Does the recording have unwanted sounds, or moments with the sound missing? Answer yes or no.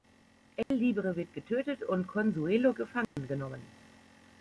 yes